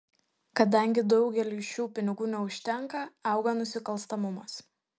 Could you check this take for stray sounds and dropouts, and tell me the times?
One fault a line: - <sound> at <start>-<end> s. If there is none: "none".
none